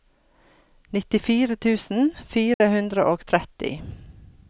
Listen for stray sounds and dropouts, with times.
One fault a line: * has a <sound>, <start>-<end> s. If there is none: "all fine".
* has a dropout, 2.5-2.6 s